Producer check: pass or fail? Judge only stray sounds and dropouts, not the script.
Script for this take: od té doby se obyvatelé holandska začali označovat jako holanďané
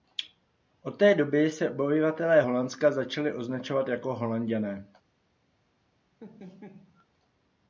fail